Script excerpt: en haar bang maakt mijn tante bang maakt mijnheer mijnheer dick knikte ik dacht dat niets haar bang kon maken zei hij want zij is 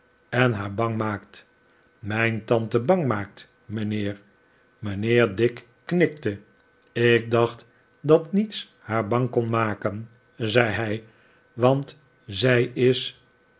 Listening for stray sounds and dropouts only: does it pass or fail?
pass